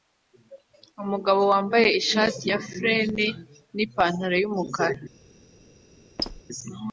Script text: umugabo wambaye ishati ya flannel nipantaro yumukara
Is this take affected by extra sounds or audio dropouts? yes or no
yes